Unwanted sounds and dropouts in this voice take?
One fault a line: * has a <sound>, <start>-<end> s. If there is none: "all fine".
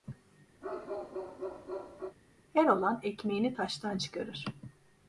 * has a bark, 0.6-2.2 s